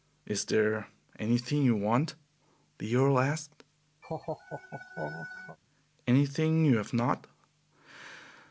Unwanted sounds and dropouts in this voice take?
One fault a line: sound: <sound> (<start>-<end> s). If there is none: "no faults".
sound: laugh (4.0-5.6 s)